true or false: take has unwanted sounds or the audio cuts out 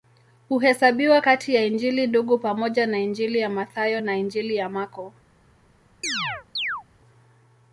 true